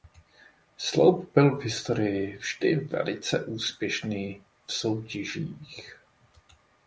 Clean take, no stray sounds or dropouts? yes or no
yes